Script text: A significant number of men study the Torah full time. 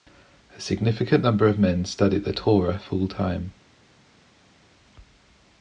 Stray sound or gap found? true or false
false